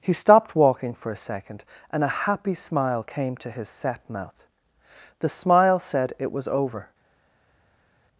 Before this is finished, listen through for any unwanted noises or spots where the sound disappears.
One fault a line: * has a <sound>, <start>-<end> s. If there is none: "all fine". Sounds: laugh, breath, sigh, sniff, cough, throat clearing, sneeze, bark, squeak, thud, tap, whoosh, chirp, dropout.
all fine